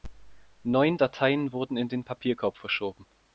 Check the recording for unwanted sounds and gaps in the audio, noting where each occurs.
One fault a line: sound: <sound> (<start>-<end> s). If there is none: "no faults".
no faults